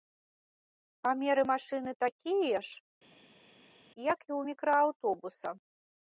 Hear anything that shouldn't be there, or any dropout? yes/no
no